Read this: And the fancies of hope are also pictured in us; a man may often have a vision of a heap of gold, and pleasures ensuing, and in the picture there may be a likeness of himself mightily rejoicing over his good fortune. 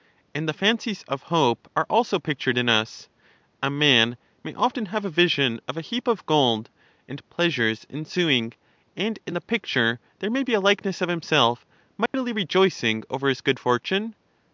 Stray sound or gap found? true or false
true